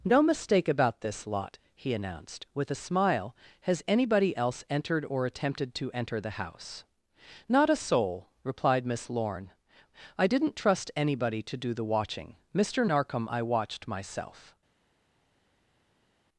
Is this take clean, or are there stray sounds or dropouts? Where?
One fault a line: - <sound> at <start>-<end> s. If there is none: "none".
none